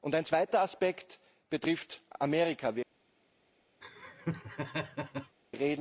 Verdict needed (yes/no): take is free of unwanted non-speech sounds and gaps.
no